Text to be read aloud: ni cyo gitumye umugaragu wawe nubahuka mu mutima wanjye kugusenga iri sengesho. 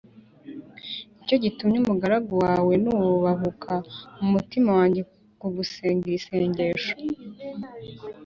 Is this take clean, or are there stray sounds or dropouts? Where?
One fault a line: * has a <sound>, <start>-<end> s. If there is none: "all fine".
all fine